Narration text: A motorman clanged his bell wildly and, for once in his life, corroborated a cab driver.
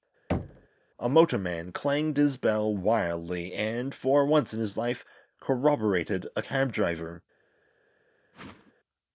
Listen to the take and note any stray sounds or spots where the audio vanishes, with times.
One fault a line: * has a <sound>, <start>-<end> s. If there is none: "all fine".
* has a thud, 0.3-0.7 s
* has a whoosh, 8.3-8.7 s